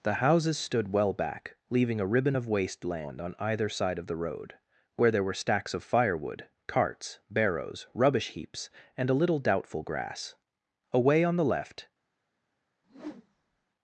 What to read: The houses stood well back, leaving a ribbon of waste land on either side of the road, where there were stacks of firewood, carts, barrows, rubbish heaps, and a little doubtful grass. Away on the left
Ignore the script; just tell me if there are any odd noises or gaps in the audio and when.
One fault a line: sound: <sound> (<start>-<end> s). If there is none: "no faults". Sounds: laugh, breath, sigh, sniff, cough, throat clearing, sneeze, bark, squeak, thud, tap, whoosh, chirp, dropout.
sound: whoosh (12.8-13.7 s)